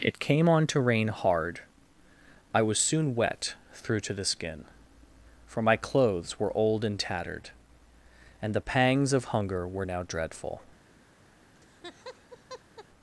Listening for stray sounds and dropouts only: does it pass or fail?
fail